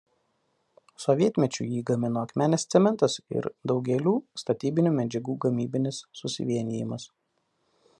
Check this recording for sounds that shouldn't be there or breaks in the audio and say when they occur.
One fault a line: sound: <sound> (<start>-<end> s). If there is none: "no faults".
no faults